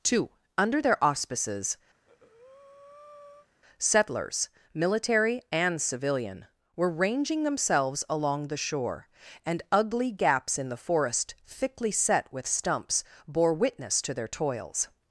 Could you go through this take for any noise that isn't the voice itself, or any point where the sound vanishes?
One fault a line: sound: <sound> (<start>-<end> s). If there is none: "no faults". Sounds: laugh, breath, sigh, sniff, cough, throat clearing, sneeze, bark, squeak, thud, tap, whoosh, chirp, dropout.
sound: breath (1.9-3.5 s)